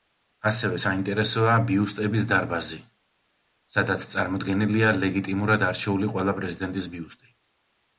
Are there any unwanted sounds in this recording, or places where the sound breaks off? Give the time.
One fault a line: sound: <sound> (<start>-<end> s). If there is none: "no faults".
no faults